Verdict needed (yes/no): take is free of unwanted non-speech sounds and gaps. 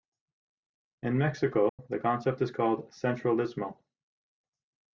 no